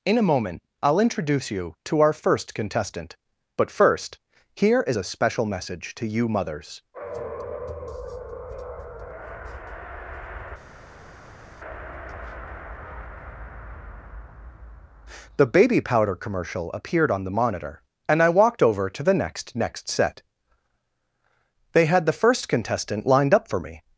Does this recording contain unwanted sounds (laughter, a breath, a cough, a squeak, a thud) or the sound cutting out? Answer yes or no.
no